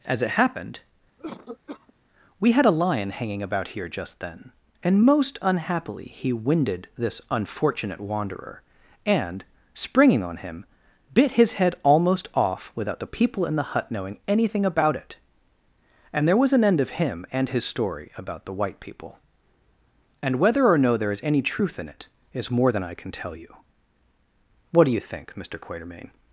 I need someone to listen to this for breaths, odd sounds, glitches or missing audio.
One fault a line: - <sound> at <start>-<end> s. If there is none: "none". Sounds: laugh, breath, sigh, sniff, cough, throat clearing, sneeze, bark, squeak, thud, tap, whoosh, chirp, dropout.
- cough at 1.2-1.9 s